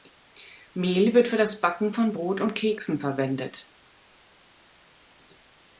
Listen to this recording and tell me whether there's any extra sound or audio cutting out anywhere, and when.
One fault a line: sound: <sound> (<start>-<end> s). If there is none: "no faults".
no faults